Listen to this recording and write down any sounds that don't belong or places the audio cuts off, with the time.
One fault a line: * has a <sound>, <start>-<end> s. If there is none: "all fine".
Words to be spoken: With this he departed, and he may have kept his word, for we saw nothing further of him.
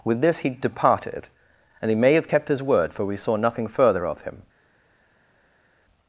all fine